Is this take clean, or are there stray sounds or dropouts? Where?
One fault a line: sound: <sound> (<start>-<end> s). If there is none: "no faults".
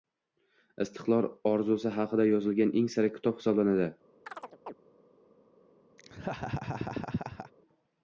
sound: chirp (4.3-4.7 s)
sound: laugh (6.0-7.5 s)